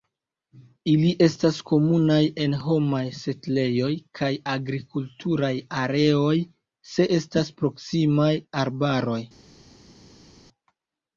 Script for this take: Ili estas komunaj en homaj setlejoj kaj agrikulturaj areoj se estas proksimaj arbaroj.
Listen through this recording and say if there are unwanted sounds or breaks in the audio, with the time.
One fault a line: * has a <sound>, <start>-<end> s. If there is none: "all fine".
all fine